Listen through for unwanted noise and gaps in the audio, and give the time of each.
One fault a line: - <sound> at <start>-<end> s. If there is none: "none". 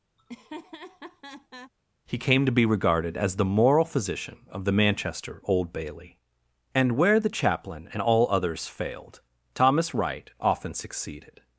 - laugh at 0.2-1.7 s